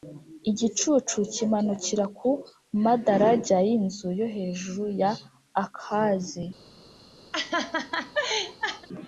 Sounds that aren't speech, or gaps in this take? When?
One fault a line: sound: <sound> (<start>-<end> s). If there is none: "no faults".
sound: laugh (7.3-8.9 s)